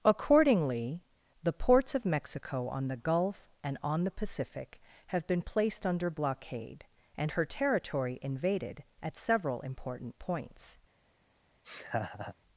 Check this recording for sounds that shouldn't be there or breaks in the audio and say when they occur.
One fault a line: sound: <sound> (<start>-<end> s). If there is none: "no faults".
sound: laugh (11.6-12.3 s)